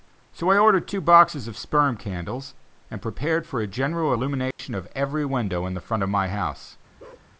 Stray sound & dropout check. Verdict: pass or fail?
fail